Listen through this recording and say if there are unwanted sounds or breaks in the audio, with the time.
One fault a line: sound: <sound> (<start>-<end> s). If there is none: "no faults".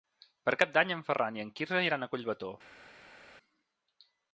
no faults